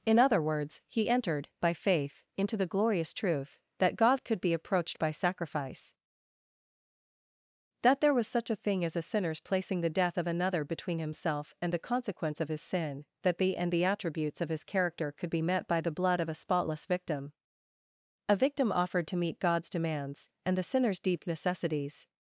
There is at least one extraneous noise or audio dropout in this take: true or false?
false